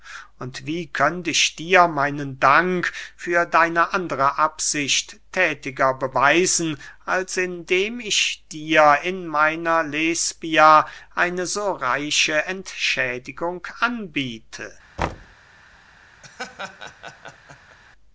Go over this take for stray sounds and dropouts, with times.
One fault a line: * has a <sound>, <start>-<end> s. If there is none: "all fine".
* has a thud, 15.0-15.4 s
* has a laugh, 16.2-17.8 s